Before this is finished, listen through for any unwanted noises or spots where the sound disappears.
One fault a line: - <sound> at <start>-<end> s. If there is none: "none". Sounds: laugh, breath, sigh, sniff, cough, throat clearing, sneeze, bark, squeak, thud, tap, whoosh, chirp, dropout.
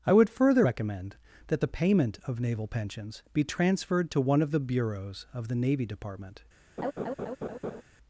- laugh at 6.8-7.8 s